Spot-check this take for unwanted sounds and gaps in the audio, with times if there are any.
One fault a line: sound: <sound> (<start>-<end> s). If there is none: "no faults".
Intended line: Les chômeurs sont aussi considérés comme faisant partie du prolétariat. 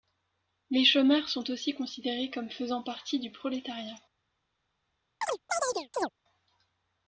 sound: chirp (5.2-6.1 s)